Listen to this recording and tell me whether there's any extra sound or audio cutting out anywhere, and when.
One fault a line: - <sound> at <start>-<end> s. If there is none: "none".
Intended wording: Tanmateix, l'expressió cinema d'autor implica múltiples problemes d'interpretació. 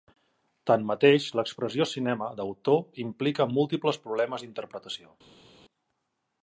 none